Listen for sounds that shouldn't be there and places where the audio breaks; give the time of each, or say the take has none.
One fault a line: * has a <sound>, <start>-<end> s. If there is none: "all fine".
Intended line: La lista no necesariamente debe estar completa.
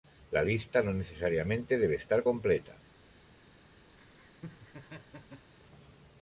* has a laugh, 4.0-5.5 s